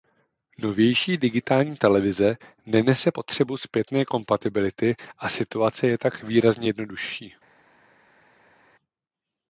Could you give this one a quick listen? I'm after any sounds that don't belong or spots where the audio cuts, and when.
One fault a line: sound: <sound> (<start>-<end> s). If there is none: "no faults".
no faults